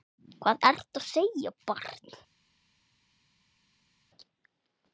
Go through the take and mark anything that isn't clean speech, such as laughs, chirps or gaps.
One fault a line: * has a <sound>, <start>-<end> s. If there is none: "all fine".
all fine